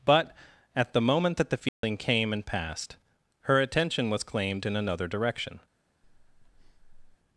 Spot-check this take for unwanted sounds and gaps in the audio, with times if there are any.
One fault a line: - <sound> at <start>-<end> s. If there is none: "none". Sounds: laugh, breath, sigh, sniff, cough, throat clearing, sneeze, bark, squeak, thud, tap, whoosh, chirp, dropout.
- dropout at 1.7-1.8 s
- breath at 6.0-7.2 s